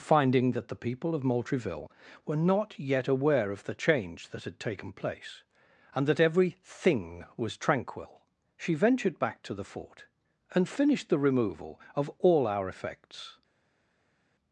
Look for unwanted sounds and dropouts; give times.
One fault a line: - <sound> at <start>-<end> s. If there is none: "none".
none